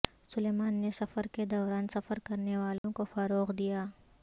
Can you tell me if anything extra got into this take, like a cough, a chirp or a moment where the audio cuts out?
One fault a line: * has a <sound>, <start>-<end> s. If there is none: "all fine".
* has a dropout, 2.8-2.8 s